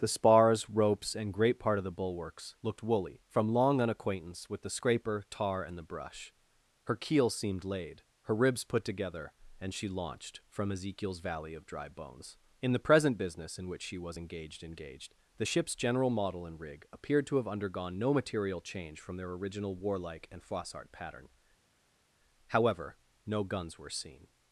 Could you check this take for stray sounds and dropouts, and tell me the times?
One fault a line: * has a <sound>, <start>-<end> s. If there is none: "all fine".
all fine